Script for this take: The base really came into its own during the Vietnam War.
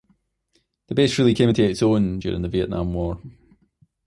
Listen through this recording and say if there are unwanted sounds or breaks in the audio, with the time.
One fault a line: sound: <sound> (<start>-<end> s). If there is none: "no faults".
no faults